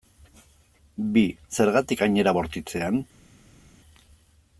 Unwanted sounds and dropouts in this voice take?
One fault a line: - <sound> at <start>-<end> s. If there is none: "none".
none